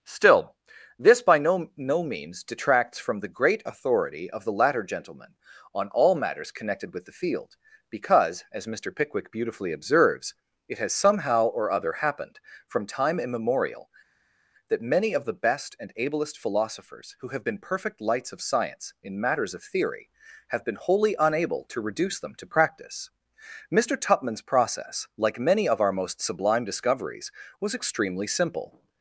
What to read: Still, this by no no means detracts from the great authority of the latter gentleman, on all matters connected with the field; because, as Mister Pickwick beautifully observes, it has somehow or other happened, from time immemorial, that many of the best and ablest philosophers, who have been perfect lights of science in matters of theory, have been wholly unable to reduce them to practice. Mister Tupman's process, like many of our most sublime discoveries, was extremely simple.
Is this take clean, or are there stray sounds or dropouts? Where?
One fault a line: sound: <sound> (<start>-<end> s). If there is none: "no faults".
no faults